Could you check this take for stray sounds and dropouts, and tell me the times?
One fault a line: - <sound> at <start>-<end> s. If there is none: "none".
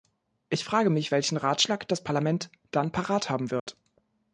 - dropout at 3.6-3.7 s